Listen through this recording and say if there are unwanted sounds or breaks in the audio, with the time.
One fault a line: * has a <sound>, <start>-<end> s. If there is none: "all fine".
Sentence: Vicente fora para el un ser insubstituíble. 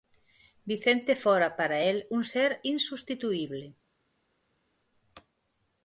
all fine